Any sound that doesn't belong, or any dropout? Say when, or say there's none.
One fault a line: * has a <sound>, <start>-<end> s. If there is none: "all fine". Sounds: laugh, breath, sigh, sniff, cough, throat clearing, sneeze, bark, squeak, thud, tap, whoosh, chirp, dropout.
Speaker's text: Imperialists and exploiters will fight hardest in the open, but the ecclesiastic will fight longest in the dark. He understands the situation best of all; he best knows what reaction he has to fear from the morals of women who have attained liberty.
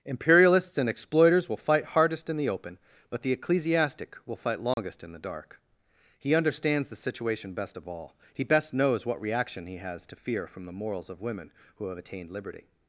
* has a dropout, 4.7-4.8 s